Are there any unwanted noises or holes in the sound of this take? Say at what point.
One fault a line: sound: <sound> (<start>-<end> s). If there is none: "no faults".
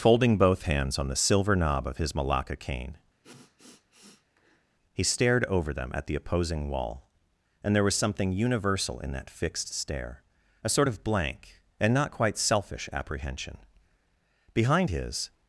sound: sniff (3.2-4.7 s)